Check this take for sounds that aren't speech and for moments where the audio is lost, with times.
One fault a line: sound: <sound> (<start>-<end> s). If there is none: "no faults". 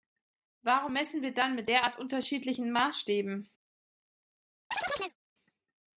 sound: chirp (4.7-5.2 s)